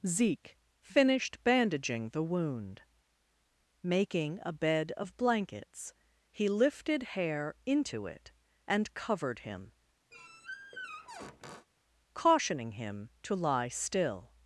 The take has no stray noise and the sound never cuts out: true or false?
false